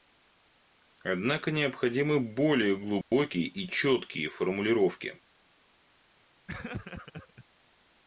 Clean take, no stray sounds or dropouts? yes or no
no